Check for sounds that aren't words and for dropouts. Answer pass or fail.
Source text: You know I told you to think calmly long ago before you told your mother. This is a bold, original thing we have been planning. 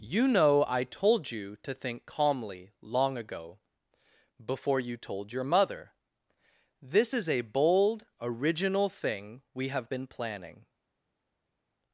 pass